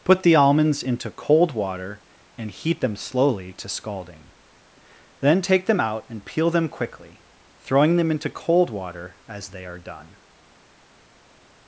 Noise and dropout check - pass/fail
pass